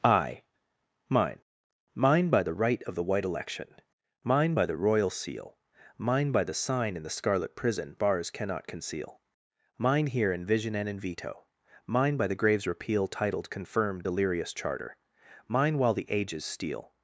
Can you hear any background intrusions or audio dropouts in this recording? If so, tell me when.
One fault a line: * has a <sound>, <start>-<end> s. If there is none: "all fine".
all fine